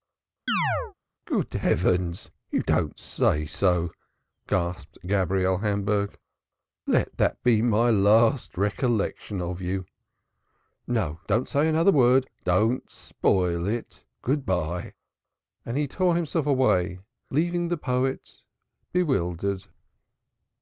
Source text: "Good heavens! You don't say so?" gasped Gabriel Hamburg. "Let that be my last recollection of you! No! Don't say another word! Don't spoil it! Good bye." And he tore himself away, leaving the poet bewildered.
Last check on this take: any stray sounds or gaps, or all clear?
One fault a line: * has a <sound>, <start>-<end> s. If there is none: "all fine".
* has a chirp, 0.5-0.9 s